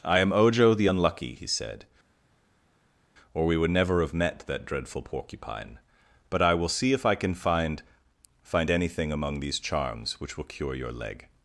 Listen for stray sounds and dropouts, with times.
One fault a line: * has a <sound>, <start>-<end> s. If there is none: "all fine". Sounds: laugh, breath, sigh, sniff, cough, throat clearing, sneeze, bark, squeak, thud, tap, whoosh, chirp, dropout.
all fine